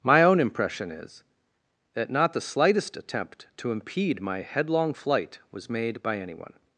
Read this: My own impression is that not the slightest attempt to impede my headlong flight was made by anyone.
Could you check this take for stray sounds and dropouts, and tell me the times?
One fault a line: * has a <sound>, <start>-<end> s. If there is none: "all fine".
all fine